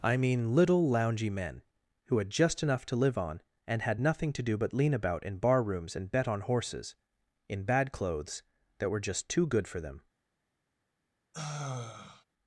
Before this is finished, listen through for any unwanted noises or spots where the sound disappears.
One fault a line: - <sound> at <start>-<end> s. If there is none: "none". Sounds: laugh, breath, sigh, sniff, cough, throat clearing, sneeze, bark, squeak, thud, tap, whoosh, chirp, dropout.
- sigh at 11.3-12.2 s